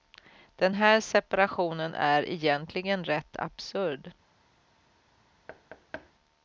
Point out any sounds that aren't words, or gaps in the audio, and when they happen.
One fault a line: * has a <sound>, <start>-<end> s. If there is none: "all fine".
* has a thud, 5.5-6.1 s